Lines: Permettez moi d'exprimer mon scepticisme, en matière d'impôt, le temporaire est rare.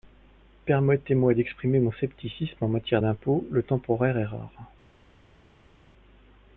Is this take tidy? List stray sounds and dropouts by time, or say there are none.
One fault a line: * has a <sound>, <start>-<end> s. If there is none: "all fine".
all fine